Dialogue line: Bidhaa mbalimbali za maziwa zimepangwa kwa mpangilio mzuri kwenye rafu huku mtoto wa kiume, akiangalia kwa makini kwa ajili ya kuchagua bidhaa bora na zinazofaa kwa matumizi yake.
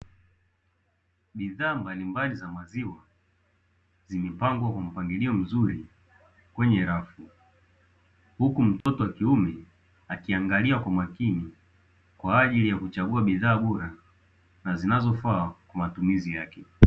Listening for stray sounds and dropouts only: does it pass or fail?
fail